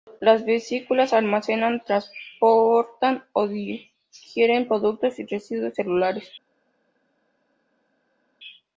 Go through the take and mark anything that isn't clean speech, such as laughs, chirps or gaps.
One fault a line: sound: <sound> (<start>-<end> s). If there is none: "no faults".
no faults